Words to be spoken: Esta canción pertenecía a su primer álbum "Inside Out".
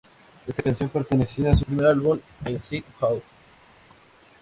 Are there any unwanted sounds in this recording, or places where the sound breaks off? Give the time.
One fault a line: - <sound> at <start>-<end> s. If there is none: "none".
none